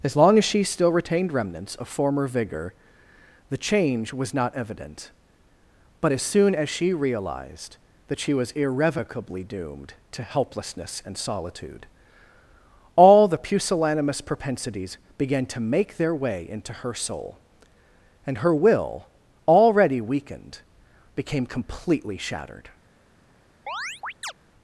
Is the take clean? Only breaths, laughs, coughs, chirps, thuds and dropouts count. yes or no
no